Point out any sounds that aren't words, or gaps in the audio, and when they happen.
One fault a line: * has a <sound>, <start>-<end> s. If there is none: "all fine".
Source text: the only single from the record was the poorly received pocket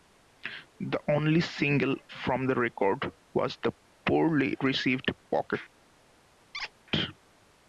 * has a squeak, 6.5-6.7 s